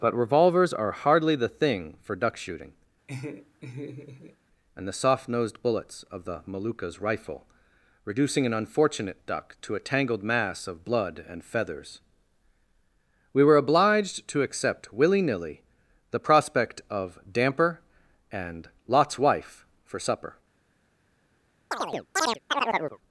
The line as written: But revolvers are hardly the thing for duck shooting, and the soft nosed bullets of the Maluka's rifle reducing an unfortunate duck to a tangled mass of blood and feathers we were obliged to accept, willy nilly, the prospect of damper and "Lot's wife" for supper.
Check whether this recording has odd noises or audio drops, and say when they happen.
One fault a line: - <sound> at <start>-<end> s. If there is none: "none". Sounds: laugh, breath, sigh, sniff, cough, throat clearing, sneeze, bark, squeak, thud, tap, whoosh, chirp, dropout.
- laugh at 3.1-4.4 s
- chirp at 21.7-23.0 s